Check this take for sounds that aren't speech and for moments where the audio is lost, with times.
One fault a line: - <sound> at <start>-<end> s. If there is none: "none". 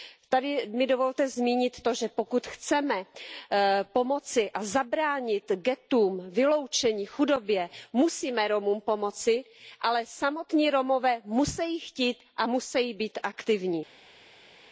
none